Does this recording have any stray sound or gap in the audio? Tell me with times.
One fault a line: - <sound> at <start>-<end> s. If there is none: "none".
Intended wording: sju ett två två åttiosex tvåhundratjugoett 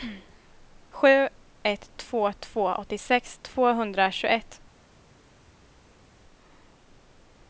none